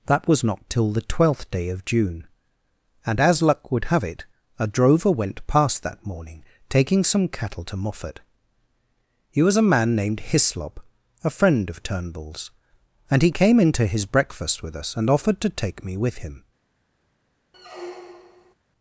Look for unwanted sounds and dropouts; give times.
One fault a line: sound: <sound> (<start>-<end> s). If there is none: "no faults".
sound: squeak (17.5-18.5 s)